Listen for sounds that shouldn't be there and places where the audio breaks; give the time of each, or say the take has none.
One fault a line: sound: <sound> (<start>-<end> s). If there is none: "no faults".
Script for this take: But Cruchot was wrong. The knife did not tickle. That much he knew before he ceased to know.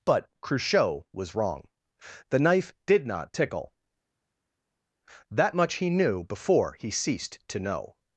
no faults